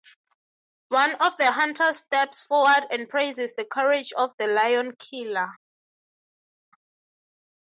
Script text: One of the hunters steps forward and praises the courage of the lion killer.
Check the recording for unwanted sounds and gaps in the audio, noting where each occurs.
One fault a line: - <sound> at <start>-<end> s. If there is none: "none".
none